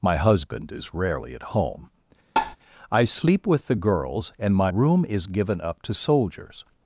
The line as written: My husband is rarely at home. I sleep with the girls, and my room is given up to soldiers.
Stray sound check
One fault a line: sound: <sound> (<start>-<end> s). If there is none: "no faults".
sound: tap (2.4-2.6 s)